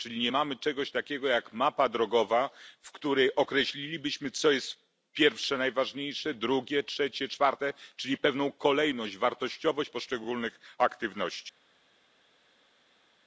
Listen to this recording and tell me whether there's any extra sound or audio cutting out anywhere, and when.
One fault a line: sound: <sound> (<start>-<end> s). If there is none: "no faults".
no faults